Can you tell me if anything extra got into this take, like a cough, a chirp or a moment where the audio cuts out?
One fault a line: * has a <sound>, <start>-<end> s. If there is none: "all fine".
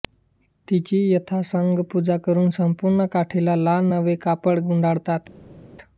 all fine